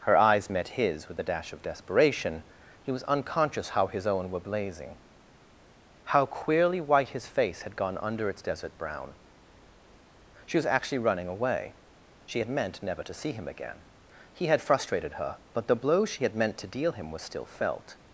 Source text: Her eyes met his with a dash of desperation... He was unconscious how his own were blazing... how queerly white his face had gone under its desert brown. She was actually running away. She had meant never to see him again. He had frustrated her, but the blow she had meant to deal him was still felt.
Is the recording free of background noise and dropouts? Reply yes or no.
yes